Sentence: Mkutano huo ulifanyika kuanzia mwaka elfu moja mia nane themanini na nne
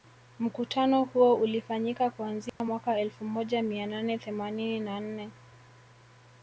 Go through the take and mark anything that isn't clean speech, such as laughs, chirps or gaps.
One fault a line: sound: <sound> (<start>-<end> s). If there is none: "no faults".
sound: dropout (2.5-2.6 s)